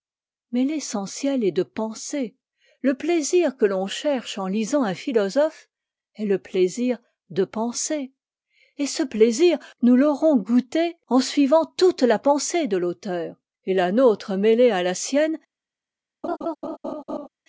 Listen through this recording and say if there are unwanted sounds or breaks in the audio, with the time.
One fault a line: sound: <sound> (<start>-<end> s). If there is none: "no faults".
sound: laugh (16.2-17.3 s)